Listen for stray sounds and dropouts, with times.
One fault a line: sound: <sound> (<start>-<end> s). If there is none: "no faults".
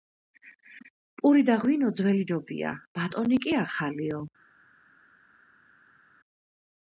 no faults